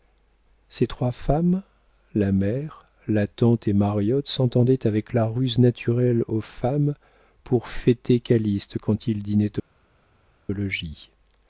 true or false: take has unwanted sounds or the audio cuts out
false